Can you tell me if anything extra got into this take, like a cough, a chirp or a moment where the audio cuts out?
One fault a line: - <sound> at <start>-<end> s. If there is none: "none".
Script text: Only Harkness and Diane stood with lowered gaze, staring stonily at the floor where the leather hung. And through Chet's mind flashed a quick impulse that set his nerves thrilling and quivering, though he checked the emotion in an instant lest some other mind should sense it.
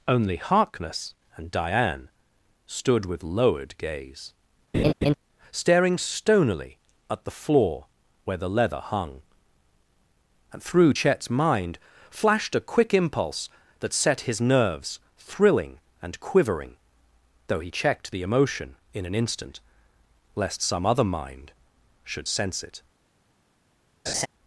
- laugh at 4.7-5.1 s
- laugh at 24.1-24.3 s